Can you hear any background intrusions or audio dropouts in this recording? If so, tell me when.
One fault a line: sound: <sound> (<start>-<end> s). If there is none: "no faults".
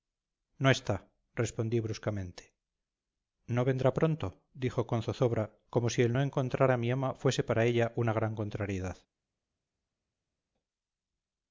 no faults